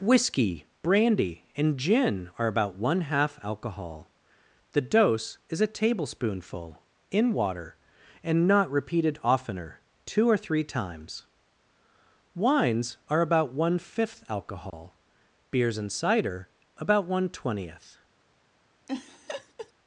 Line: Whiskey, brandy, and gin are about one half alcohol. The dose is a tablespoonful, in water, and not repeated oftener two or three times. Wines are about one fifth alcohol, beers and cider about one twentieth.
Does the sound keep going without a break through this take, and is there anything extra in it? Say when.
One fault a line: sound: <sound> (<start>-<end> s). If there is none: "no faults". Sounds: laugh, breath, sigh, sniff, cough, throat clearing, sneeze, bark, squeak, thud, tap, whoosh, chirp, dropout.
sound: dropout (14.7-14.7 s)
sound: laugh (18.9-19.7 s)